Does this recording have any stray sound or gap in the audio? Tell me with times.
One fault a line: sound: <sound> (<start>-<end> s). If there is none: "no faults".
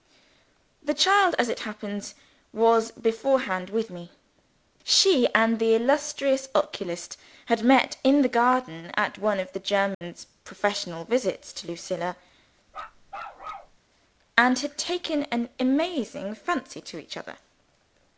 sound: dropout (9.9-10.0 s)
sound: bark (12.7-13.8 s)